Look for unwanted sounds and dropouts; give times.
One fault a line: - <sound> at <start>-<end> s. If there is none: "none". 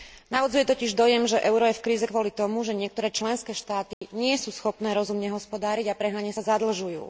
- dropout at 3.9-4.0 s